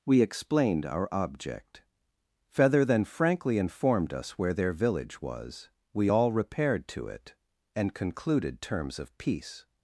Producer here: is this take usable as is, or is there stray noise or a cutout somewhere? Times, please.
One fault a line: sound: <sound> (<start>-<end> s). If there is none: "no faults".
no faults